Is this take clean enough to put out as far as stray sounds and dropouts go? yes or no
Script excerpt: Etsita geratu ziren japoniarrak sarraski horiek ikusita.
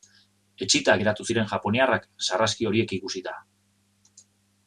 yes